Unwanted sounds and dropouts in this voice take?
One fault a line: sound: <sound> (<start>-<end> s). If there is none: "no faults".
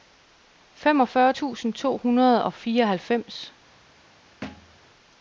sound: thud (4.4-4.8 s)